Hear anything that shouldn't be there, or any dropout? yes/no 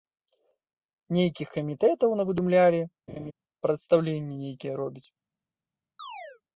yes